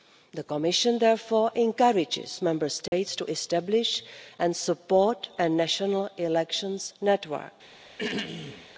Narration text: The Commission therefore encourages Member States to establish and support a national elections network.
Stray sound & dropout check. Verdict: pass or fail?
fail